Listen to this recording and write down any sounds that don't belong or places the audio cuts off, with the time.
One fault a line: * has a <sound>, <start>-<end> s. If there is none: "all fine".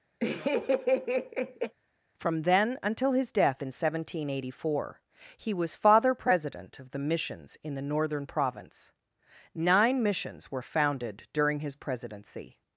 * has a laugh, 0.2-1.8 s